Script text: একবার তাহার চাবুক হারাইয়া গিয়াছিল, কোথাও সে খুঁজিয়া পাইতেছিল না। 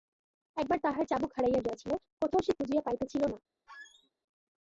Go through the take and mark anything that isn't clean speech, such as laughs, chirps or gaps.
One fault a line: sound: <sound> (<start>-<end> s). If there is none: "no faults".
sound: squeak (3.7-4.1 s)